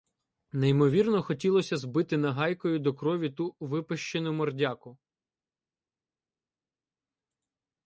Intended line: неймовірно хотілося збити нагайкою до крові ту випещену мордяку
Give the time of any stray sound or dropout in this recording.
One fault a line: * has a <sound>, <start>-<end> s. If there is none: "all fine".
all fine